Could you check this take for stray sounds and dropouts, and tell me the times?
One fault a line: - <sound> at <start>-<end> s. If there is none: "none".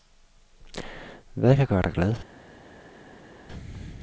none